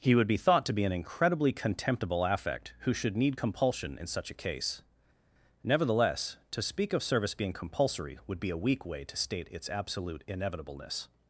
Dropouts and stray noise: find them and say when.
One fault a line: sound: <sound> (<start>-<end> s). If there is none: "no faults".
no faults